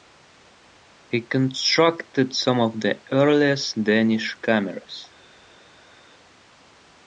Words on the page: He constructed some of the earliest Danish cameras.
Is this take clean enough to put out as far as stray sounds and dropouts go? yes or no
yes